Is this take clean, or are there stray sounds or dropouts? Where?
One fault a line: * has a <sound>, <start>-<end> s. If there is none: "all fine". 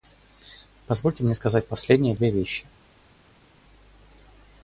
all fine